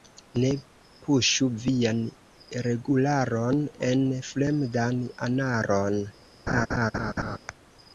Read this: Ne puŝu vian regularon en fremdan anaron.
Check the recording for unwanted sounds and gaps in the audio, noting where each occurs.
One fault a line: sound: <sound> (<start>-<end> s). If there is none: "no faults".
sound: laugh (6.5-7.4 s)